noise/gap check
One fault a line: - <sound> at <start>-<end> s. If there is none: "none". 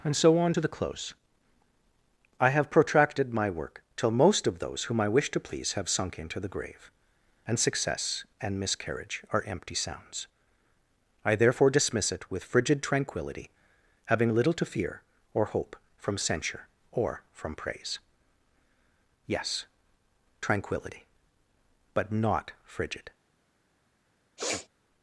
- sniff at 24.4-24.7 s